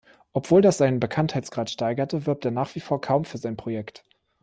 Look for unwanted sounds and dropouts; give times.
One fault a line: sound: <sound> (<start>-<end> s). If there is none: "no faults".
no faults